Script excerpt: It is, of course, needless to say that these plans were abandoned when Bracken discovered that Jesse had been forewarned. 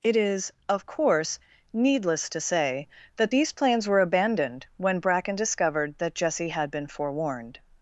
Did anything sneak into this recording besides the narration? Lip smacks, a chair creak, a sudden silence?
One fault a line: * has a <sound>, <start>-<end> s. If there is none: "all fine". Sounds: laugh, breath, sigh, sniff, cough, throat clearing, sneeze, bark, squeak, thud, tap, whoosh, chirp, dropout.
all fine